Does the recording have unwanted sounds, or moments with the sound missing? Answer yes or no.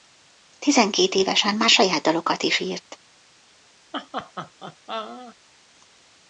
yes